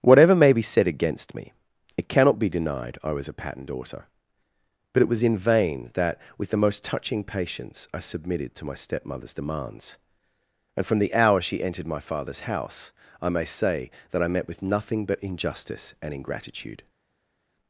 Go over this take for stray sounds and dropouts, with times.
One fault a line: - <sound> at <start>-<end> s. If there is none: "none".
none